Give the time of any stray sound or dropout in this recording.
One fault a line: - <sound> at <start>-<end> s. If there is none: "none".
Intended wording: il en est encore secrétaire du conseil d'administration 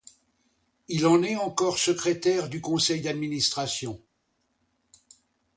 none